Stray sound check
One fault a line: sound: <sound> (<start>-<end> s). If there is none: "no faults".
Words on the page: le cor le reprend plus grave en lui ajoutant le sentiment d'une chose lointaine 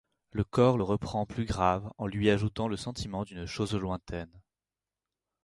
no faults